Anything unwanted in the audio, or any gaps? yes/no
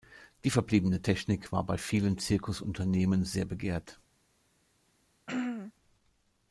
yes